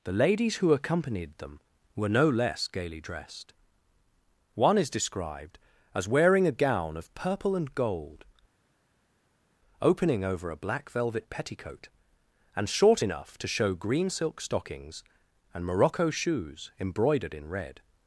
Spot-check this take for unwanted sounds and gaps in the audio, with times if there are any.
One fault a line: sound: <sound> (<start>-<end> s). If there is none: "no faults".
no faults